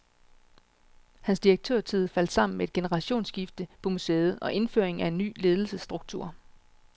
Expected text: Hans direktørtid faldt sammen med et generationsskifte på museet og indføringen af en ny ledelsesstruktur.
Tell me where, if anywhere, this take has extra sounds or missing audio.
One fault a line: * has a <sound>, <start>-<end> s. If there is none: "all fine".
all fine